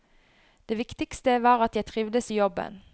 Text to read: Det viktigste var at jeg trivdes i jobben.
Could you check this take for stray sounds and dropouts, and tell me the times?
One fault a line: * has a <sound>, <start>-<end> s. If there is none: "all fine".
all fine